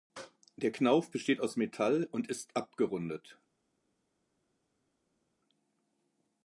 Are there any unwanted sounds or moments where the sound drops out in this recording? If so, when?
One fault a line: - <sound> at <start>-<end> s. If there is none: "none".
none